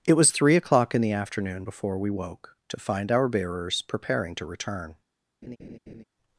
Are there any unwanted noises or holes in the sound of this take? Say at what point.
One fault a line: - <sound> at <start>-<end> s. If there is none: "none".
- laugh at 5.4-6.0 s